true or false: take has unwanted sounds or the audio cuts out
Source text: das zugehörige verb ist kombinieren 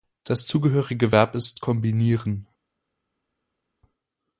false